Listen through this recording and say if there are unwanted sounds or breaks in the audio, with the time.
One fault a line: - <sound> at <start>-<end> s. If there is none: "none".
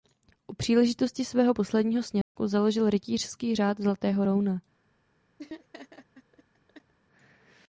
- dropout at 2.2-2.4 s
- laugh at 5.4-6.9 s